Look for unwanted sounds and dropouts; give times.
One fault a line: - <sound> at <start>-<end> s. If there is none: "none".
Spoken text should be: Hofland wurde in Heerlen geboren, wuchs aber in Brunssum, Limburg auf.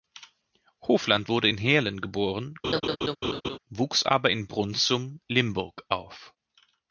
- laugh at 2.6-3.6 s